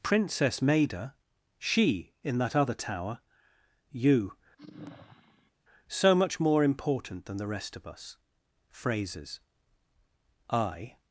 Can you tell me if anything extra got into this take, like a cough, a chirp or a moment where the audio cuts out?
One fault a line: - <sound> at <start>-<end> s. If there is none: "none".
- sigh at 4.6-5.5 s